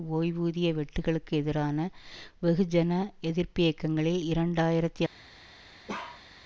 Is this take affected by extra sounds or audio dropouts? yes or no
yes